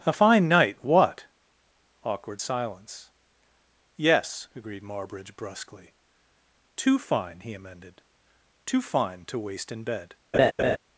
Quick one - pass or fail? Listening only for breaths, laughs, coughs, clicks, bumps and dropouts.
fail